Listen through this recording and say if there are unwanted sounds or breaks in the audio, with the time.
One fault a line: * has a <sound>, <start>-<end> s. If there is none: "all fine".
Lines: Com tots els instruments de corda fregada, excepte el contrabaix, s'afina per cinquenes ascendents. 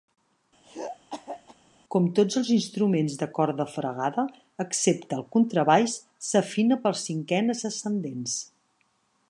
* has a throat clearing, 0.6-1.6 s